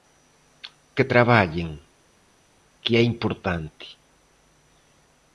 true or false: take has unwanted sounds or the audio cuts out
false